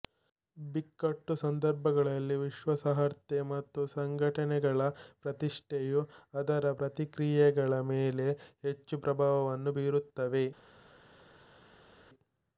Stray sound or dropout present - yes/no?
no